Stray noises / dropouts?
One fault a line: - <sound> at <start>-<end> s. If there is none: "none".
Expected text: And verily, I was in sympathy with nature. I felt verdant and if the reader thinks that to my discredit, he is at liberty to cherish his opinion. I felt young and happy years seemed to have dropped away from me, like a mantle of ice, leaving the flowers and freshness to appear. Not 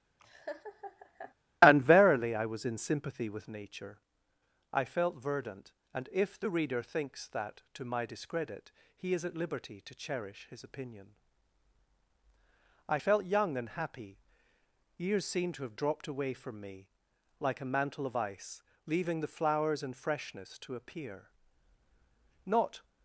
- laugh at 0.2-1.3 s